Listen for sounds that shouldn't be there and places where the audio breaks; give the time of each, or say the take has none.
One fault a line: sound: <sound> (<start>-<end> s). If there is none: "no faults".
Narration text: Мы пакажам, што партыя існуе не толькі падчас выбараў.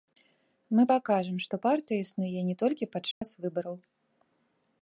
sound: dropout (3.1-3.2 s)